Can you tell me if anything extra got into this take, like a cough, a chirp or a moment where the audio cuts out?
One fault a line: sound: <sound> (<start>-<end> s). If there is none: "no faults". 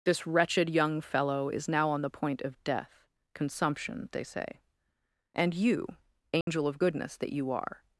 sound: dropout (6.4-6.5 s)